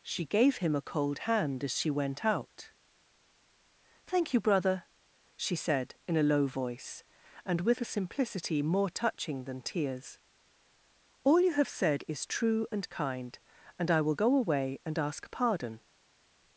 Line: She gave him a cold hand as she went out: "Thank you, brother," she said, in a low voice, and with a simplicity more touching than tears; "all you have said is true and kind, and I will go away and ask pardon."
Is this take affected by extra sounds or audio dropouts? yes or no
no